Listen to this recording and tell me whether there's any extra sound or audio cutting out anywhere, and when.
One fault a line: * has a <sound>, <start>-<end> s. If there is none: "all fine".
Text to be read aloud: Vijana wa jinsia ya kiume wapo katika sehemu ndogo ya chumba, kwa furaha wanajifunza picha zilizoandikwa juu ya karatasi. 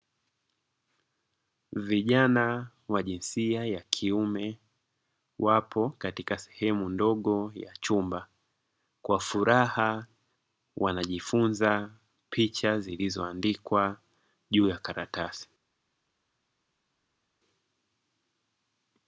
all fine